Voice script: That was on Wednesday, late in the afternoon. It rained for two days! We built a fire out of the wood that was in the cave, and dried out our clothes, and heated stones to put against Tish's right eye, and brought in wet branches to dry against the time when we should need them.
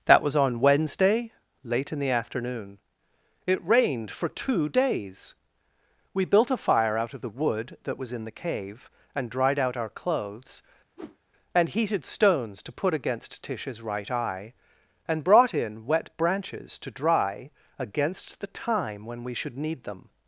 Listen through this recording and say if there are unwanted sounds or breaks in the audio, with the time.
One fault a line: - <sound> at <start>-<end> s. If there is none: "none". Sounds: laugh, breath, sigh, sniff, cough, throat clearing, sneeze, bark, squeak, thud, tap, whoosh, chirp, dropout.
- whoosh at 11.0-11.2 s